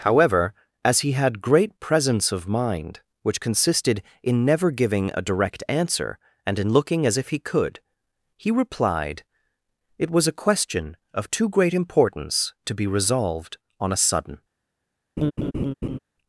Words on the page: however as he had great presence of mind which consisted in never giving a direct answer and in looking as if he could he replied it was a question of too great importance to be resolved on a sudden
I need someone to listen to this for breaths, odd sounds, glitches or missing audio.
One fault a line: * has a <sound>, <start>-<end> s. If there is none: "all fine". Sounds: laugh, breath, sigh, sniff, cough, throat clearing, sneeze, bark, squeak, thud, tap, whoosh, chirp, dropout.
* has a laugh, 15.2-16.0 s